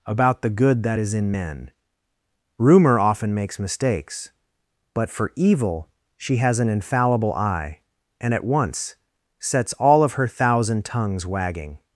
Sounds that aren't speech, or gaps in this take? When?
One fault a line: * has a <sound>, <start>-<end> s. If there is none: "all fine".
all fine